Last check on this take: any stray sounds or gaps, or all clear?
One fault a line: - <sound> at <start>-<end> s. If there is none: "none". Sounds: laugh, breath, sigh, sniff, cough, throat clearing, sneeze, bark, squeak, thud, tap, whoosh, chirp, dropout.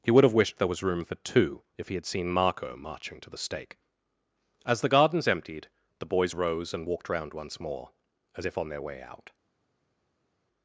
none